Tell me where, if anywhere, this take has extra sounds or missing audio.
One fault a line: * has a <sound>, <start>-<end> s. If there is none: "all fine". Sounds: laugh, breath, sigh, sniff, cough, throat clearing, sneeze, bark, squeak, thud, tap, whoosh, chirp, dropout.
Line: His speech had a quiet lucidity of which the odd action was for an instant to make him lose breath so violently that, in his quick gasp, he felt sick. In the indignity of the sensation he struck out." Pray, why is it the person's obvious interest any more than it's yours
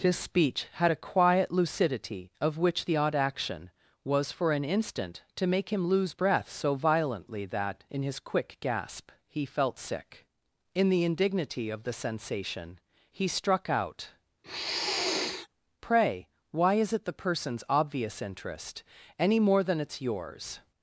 * has a sniff, 14.4-15.5 s